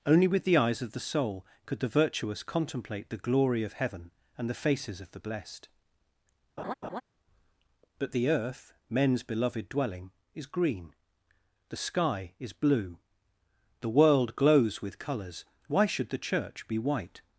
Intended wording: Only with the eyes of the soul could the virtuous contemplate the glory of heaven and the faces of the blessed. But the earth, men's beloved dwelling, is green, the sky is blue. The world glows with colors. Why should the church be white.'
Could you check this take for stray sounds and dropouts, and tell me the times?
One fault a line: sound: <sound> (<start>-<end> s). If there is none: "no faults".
sound: laugh (6.6-7.0 s)